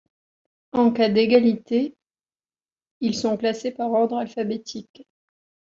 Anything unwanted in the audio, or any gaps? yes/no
no